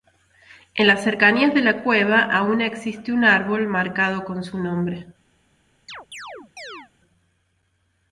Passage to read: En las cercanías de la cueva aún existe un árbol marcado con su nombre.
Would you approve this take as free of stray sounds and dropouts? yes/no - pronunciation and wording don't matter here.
no